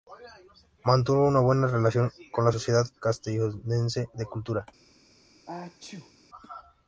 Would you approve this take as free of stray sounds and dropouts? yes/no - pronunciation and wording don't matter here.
no